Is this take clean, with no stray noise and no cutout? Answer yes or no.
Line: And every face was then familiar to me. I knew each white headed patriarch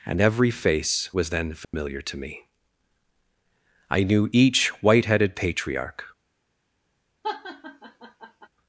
no